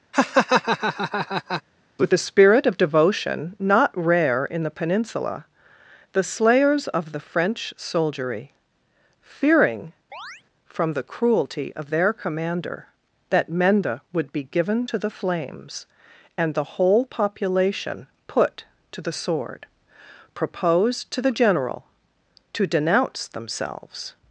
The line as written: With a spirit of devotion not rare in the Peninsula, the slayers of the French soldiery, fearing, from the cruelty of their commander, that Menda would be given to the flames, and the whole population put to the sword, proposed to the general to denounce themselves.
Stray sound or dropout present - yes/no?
yes